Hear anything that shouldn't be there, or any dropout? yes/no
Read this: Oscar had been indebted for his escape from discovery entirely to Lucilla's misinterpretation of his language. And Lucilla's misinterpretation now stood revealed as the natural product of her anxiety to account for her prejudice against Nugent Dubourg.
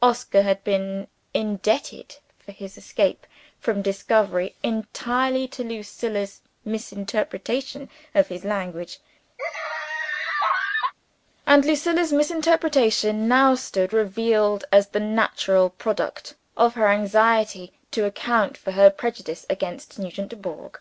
yes